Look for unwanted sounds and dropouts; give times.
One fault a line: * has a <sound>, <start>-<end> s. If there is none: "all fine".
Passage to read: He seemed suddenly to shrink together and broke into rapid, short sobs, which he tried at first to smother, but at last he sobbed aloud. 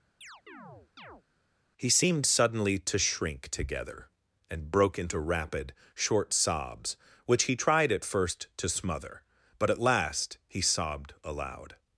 * has a chirp, 0.2-1.2 s